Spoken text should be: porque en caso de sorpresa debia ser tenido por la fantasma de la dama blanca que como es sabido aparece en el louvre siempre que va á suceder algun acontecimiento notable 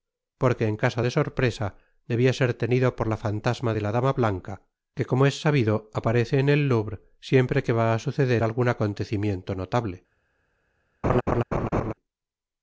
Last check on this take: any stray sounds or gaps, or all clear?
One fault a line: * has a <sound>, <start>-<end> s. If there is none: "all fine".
* has a laugh, 11.0-11.9 s